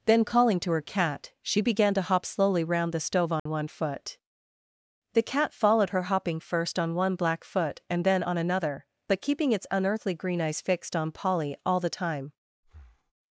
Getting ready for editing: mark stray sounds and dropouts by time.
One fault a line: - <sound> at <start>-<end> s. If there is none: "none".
- dropout at 3.4-3.5 s
- breath at 12.6-13.1 s